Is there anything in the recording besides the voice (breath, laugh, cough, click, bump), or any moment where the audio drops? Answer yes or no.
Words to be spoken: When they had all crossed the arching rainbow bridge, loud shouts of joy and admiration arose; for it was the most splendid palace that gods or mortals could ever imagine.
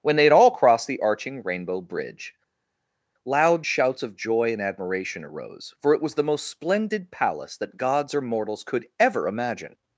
no